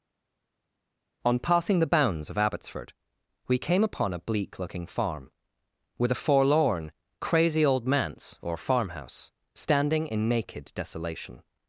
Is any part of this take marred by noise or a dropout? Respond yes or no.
no